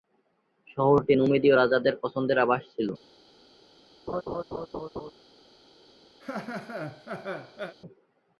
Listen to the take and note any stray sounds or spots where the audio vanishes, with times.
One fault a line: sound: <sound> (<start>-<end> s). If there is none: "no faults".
sound: laugh (4.1-5.1 s)
sound: laugh (6.2-7.8 s)